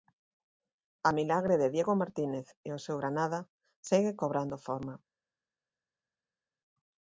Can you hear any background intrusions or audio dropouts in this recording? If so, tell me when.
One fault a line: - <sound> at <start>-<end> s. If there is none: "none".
none